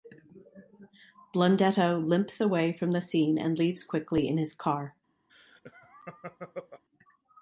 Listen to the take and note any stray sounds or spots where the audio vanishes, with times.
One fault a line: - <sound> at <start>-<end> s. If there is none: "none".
- laugh at 5.3-6.8 s